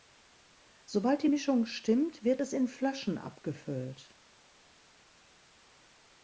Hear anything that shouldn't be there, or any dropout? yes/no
no